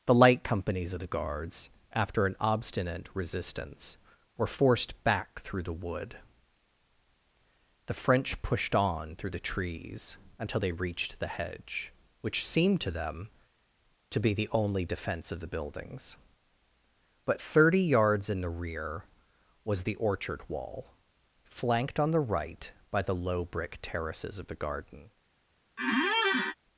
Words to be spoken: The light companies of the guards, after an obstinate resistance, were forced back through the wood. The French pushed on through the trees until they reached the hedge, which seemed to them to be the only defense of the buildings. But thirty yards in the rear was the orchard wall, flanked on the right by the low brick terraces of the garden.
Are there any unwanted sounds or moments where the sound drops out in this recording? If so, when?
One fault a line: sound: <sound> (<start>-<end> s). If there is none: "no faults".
sound: squeak (25.8-26.6 s)